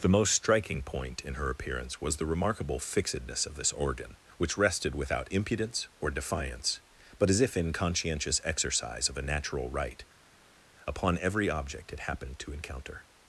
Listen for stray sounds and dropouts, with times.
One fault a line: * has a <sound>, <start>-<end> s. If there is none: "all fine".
all fine